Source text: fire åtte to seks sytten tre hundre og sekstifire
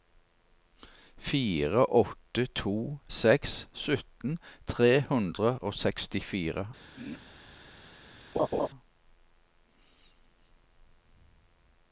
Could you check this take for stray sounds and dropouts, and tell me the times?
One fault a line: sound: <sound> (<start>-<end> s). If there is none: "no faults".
sound: throat clearing (7.0-7.3 s)
sound: laugh (8.3-8.7 s)